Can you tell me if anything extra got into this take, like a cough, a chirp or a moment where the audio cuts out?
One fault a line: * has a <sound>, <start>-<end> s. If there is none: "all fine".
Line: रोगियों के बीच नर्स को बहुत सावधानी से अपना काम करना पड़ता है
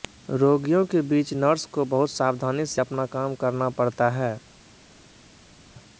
all fine